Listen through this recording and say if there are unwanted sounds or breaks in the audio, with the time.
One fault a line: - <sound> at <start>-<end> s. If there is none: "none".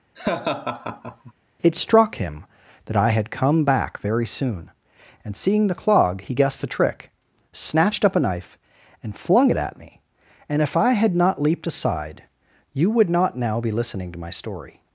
- laugh at 0.1-1.3 s